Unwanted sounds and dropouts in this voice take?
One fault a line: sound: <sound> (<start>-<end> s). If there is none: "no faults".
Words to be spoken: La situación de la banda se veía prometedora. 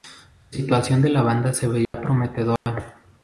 sound: dropout (1.8-1.9 s)
sound: dropout (2.6-2.7 s)